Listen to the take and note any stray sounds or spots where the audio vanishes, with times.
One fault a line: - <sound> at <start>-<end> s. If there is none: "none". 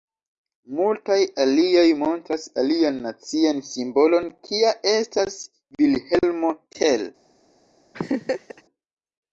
- laugh at 7.9-8.6 s